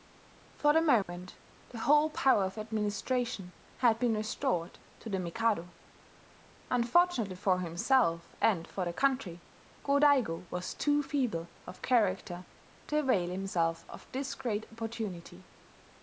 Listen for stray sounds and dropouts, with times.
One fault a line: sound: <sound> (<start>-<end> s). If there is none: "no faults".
sound: dropout (1.0-1.1 s)